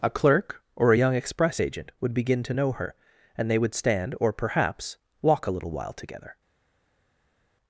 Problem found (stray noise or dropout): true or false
false